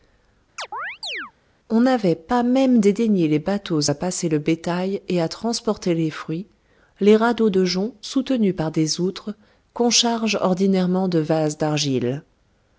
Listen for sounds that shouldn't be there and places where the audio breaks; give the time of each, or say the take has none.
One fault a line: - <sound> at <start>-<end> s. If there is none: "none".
- chirp at 0.6-1.3 s